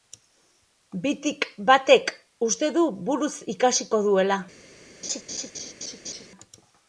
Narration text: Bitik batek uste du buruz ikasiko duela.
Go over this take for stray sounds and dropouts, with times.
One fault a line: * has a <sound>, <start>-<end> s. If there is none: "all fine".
* has a laugh, 5.0-6.3 s